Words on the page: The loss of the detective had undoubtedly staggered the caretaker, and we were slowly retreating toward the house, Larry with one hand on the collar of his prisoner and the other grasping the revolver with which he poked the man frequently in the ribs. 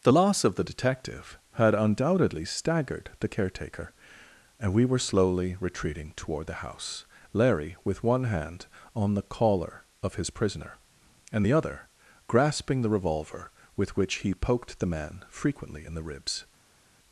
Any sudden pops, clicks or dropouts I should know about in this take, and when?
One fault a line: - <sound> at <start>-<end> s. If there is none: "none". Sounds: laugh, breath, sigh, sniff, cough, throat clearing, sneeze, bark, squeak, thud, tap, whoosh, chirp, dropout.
none